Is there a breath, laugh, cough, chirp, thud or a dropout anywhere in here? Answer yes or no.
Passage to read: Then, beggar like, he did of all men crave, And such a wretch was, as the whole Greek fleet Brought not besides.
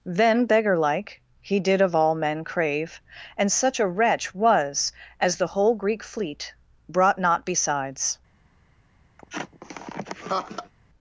yes